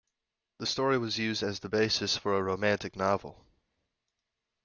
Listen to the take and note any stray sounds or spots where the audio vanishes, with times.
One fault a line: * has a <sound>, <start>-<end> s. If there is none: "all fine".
all fine